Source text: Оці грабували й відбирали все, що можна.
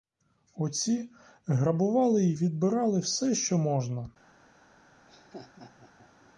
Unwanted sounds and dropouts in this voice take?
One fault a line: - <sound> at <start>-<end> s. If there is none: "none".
- laugh at 5.0-6.3 s